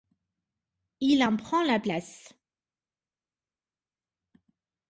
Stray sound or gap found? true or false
false